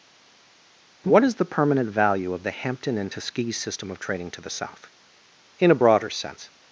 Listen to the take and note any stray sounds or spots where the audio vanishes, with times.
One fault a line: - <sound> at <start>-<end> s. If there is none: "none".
none